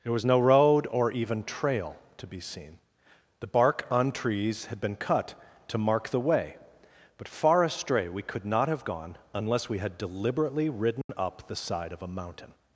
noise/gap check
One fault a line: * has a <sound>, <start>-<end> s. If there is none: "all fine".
* has a dropout, 11.0-11.1 s